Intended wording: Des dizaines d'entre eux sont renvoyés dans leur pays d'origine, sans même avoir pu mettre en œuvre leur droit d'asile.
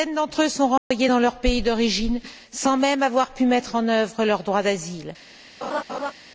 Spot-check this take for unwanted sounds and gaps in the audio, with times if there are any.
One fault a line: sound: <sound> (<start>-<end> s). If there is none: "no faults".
sound: dropout (0.8-0.9 s)
sound: laugh (5.6-6.1 s)